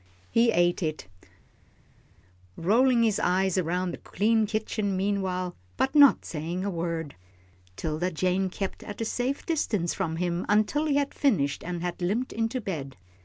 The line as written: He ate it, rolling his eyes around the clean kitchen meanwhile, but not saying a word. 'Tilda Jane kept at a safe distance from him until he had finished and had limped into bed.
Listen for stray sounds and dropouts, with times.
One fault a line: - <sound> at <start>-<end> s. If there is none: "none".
none